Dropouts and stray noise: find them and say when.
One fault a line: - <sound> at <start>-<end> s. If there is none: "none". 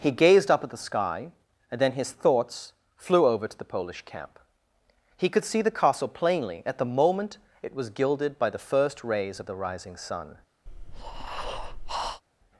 - breath at 10.7-12.2 s